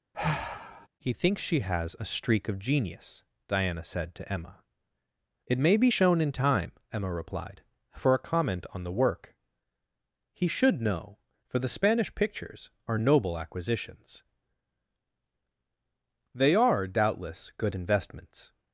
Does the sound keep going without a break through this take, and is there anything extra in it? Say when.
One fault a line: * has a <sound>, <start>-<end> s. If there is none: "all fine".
* has a sigh, 0.1-0.9 s